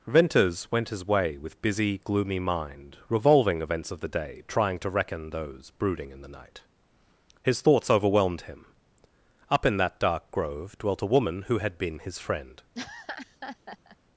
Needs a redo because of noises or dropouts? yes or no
yes